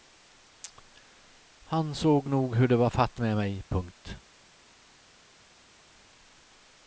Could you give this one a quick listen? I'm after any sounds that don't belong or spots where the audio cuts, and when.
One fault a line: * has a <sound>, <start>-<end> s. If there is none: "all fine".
all fine